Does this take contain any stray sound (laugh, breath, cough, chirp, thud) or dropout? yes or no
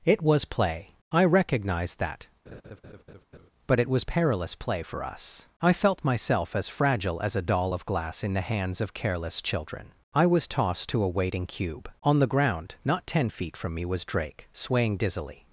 yes